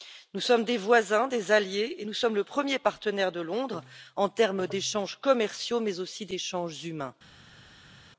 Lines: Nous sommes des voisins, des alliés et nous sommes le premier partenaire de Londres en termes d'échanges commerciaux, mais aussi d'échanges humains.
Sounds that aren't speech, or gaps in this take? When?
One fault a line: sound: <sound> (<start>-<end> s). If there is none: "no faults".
no faults